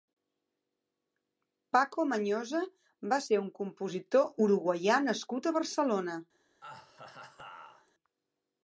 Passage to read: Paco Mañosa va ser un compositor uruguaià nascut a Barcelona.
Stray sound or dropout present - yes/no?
yes